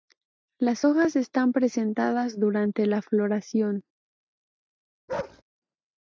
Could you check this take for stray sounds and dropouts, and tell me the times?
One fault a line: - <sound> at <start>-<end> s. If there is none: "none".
- bark at 5.1-5.4 s